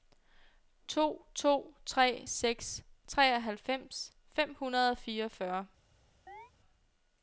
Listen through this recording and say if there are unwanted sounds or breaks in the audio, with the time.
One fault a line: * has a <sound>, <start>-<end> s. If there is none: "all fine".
* has a chirp, 6.3-6.5 s